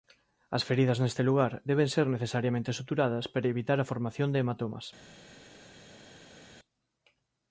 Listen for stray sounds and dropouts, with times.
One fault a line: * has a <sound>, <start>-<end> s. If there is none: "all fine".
all fine